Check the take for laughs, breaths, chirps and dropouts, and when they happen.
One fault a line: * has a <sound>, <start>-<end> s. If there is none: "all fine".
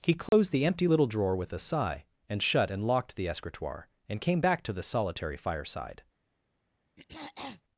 * has a dropout, 0.3-0.3 s
* has a throat clearing, 7.0-7.6 s